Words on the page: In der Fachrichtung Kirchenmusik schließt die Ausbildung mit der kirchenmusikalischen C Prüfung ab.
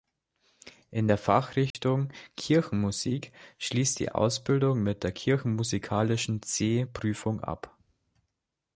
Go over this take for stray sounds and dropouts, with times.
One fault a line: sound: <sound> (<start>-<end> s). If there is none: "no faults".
sound: dropout (1.7-1.7 s)